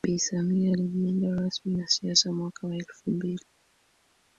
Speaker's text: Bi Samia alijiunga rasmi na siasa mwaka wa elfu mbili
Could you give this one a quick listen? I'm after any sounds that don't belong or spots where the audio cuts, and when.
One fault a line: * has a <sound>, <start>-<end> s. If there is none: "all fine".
all fine